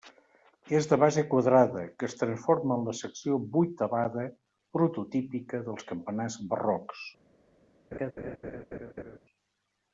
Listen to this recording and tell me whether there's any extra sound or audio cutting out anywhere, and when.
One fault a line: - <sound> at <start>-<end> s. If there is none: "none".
- laugh at 7.9-9.2 s